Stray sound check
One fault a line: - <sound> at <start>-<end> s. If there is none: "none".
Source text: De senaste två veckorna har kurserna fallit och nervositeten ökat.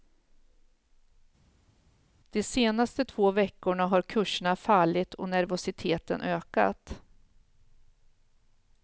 none